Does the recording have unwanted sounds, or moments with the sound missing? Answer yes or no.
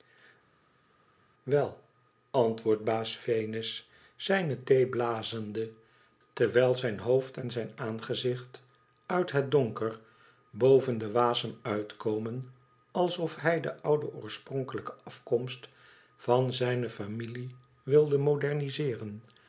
no